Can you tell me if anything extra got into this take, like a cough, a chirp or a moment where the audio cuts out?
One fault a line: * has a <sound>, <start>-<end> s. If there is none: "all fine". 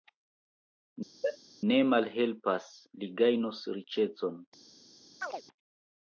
* has a sneeze, 1.2-1.4 s
* has a chirp, 5.2-5.4 s